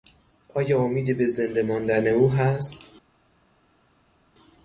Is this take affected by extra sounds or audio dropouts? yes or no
no